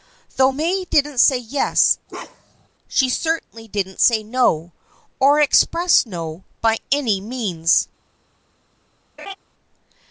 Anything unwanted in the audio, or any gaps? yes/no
yes